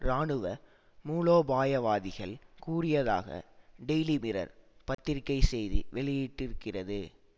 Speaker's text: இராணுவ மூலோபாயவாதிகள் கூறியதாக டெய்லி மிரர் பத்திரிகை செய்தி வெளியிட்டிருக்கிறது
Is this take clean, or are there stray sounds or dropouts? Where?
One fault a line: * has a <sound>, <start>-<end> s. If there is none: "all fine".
* has a dropout, 4.9-5.0 s